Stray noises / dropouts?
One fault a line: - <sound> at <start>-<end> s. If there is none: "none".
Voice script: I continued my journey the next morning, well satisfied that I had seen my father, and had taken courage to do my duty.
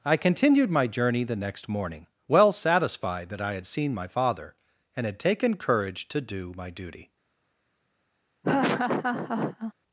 - laugh at 8.4-9.7 s